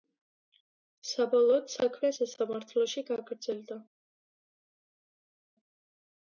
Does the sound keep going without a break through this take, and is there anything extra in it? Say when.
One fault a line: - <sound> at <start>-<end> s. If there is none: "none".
none